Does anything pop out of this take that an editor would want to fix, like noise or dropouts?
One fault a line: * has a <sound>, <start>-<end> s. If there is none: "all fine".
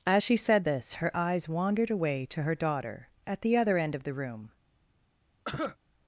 * has a cough, 5.4-5.8 s